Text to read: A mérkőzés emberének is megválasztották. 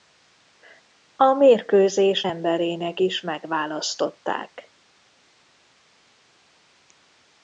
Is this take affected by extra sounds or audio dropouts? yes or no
no